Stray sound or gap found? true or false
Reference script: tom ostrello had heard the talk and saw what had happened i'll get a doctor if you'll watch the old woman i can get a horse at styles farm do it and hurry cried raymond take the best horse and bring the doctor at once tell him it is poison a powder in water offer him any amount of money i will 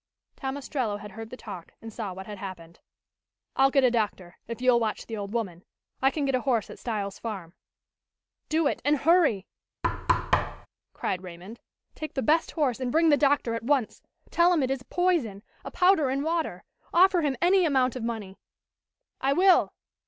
true